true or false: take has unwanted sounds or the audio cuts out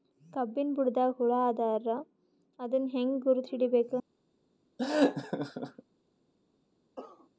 true